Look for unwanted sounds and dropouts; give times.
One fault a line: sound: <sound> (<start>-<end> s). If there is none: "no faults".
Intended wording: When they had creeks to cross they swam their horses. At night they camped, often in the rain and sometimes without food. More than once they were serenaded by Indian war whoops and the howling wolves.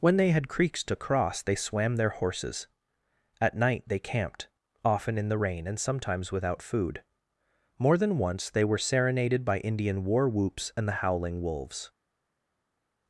no faults